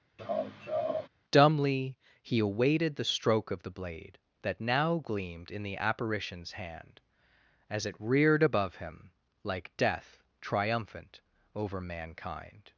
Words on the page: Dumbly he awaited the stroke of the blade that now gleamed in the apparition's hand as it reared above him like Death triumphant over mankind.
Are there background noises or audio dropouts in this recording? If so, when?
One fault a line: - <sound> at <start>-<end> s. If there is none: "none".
- laugh at 0.2-1.1 s